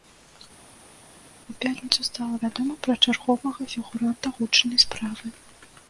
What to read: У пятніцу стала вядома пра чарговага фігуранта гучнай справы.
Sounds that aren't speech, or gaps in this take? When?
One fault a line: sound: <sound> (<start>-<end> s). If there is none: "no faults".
no faults